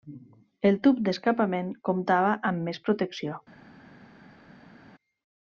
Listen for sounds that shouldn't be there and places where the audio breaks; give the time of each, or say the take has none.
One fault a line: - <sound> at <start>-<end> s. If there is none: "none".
none